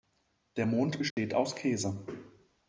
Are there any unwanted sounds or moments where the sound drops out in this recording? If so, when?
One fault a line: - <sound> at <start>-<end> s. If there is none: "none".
- dropout at 1.1-1.2 s